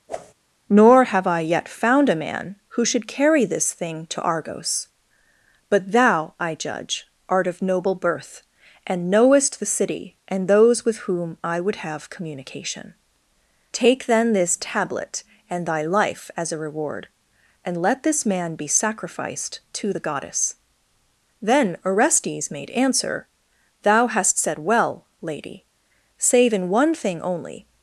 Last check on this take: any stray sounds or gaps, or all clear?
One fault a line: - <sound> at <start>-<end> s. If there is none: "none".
- whoosh at 0.1-0.3 s